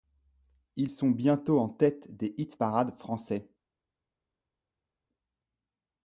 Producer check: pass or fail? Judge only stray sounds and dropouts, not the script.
pass